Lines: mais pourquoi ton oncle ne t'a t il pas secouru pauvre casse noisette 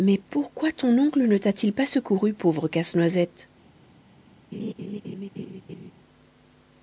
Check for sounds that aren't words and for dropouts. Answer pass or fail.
fail